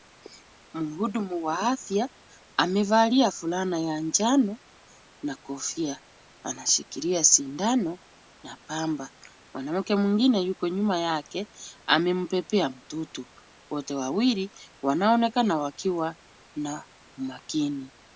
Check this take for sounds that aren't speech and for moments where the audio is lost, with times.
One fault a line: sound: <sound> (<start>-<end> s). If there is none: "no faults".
no faults